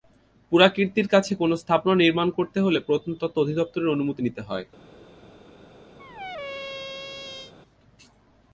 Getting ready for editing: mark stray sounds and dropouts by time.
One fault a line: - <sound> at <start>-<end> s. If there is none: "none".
- squeak at 6.0-7.5 s